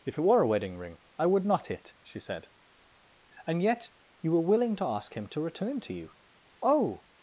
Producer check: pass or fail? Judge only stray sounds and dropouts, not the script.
pass